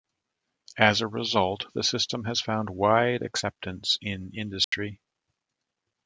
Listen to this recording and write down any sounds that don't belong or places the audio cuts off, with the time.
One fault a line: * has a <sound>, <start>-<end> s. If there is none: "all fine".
* has a dropout, 4.6-4.7 s